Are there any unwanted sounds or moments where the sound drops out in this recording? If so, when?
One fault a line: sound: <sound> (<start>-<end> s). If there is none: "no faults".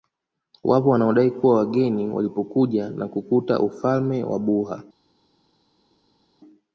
no faults